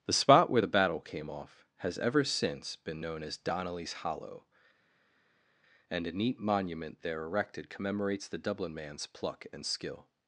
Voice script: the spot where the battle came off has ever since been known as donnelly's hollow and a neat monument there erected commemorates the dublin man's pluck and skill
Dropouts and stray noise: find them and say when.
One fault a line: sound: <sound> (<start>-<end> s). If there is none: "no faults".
no faults